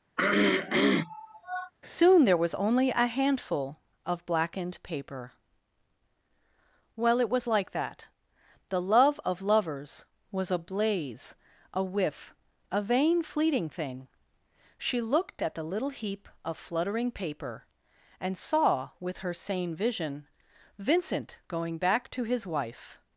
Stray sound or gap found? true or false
true